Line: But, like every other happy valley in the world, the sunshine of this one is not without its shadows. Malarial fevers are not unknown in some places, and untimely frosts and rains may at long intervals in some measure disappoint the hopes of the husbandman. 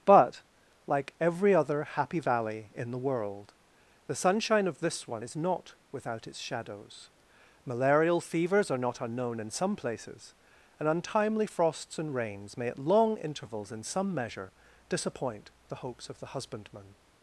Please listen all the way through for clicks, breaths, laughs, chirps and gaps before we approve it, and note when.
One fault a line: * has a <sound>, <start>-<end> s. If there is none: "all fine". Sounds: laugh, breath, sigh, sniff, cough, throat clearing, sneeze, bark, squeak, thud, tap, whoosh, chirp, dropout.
all fine